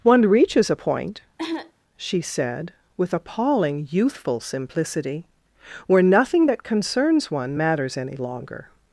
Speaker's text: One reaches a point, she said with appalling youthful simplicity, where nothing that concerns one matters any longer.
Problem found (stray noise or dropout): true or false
true